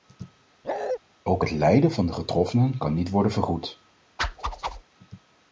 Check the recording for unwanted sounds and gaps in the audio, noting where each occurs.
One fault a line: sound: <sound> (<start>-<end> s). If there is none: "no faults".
sound: bark (0.6-1.0 s)
sound: whoosh (4.2-4.8 s)